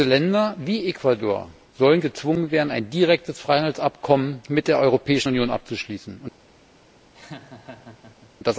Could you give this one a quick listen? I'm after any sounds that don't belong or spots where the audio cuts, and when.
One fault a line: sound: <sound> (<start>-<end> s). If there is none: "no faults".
sound: laugh (7.1-8.3 s)